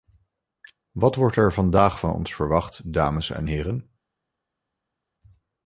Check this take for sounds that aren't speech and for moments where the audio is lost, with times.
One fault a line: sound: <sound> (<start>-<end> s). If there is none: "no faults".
no faults